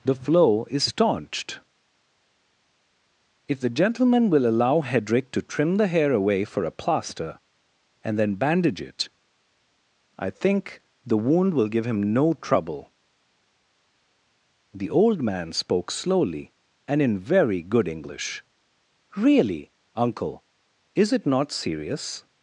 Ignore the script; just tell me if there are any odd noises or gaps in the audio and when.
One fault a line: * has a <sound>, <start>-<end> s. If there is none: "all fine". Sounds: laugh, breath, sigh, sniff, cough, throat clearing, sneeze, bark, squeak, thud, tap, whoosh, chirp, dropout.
all fine